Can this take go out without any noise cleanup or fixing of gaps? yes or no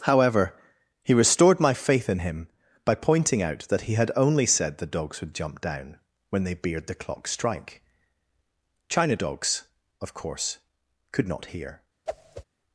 no